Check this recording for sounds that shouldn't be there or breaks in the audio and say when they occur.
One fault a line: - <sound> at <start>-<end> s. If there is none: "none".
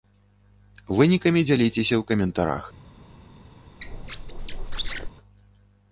- squeak at 3.8-5.1 s